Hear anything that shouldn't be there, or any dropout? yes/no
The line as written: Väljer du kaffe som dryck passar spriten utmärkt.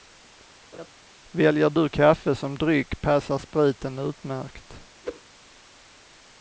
yes